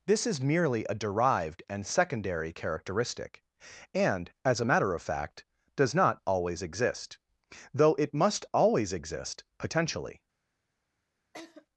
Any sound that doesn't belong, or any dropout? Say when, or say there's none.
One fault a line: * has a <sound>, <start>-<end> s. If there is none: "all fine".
* has a laugh, 11.3-11.7 s